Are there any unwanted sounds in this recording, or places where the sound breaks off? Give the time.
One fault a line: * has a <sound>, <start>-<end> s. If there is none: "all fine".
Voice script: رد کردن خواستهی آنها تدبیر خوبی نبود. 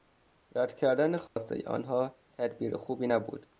* has a dropout, 1.3-1.4 s